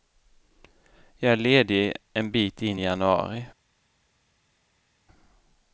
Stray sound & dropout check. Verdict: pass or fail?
pass